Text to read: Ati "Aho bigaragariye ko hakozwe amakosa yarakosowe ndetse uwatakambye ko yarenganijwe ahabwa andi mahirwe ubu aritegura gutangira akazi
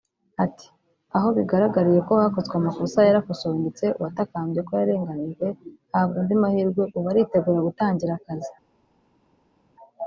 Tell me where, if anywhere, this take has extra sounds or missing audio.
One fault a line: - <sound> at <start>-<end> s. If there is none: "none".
none